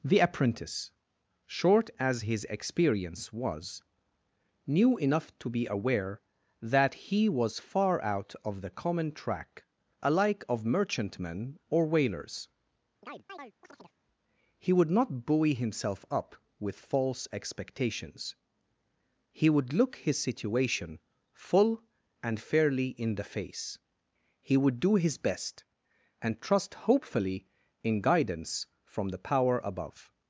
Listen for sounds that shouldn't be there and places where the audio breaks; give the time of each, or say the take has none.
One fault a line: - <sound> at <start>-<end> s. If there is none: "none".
- chirp at 13.0-14.0 s